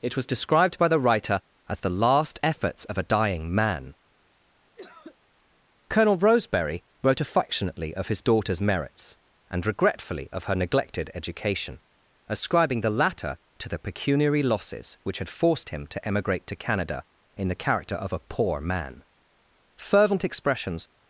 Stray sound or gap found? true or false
true